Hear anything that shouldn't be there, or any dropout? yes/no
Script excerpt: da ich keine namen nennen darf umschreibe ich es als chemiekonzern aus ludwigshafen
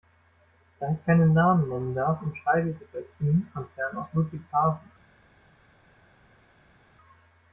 no